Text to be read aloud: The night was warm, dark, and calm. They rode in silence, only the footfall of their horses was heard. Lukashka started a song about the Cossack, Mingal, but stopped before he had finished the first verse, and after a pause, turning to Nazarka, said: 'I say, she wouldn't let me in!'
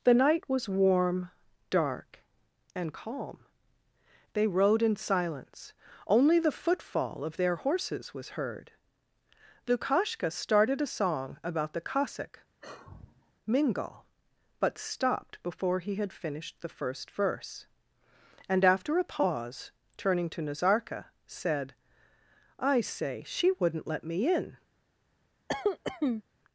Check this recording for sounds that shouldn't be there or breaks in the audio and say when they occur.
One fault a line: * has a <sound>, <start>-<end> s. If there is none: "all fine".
* has a sigh, 12.6-13.3 s
* has a cough, 25.5-26.2 s